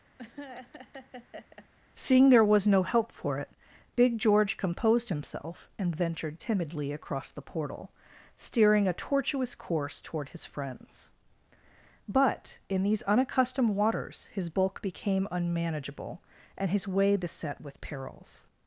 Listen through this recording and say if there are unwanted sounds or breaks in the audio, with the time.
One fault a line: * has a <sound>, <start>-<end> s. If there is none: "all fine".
* has a laugh, 0.2-1.7 s